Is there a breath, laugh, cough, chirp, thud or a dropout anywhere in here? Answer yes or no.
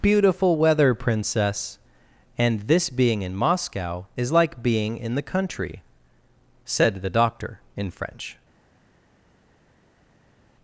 no